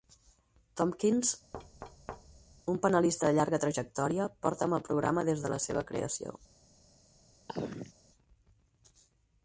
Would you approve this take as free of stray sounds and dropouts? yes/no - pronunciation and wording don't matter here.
no